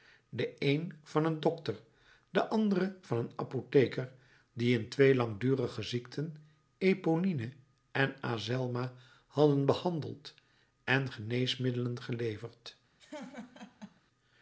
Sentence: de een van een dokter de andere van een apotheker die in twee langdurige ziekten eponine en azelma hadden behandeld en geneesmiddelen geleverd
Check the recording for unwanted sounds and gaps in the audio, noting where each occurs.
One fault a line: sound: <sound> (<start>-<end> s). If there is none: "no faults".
sound: laugh (13.0-14.0 s)